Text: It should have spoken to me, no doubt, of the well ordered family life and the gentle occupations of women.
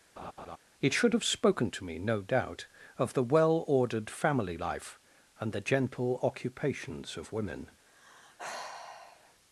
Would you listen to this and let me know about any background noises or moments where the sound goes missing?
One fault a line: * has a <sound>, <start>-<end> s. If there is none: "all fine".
* has a laugh, 0.2-0.6 s
* has a sigh, 7.9-9.4 s